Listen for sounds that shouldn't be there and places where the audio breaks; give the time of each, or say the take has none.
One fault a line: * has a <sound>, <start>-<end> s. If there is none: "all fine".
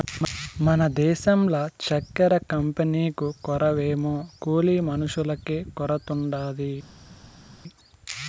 all fine